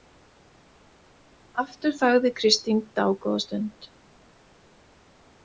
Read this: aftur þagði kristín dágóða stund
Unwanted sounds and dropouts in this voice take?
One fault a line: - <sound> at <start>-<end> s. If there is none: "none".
none